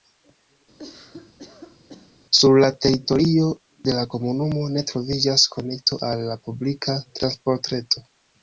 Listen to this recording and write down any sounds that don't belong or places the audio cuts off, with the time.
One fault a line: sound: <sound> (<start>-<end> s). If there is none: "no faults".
sound: cough (0.8-2.1 s)